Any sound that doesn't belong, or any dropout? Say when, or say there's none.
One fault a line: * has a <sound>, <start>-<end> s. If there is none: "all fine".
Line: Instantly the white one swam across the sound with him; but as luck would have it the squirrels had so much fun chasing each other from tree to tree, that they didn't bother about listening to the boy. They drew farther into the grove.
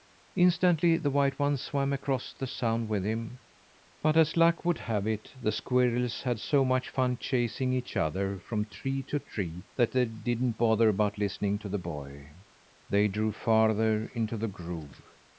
all fine